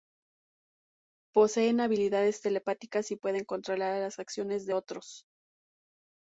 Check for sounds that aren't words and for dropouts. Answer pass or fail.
pass